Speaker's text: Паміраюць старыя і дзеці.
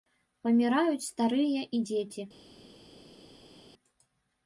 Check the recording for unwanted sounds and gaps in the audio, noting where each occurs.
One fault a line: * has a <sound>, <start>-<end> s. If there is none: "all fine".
all fine